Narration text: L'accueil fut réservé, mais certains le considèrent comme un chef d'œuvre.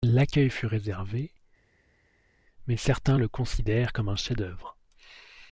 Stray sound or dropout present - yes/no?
no